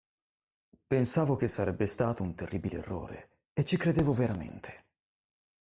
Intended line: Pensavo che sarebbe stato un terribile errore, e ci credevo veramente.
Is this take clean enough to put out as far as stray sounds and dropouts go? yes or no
yes